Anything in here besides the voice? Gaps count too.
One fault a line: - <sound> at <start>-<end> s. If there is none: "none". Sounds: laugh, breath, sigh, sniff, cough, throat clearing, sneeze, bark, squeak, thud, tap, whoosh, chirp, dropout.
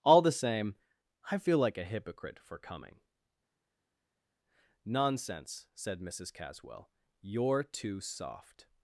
none